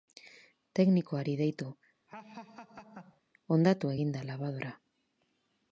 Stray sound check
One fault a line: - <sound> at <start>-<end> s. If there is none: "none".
- laugh at 2.1-3.2 s